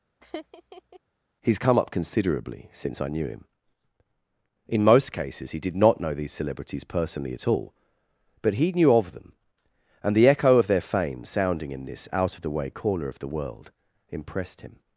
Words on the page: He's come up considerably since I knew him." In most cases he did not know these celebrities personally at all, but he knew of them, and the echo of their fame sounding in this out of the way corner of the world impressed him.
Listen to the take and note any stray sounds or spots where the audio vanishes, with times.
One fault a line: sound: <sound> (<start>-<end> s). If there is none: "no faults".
sound: laugh (0.2-1.0 s)